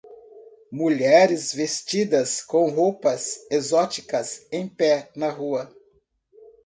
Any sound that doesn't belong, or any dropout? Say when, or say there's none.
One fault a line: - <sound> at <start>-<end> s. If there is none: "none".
none